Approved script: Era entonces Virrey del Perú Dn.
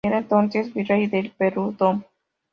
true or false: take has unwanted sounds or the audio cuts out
false